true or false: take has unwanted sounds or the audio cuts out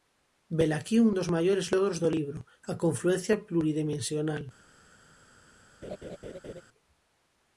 true